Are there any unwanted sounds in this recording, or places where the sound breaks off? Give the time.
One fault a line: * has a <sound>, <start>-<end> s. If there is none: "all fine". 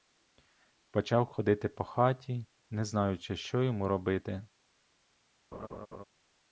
* has a laugh, 5.5-6.0 s